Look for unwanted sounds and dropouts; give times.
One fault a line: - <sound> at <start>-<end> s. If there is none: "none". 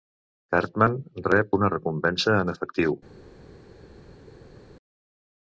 none